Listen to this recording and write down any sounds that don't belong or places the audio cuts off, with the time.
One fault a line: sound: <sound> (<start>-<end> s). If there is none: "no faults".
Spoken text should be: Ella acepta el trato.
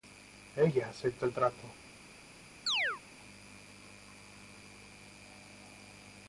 sound: chirp (2.7-3.0 s)